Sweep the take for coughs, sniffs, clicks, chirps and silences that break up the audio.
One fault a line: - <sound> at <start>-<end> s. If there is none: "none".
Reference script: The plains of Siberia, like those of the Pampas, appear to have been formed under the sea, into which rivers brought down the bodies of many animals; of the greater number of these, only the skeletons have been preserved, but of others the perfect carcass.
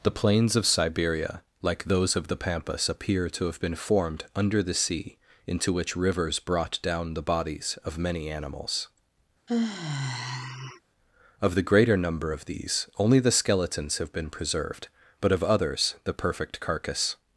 - sigh at 9.5-10.8 s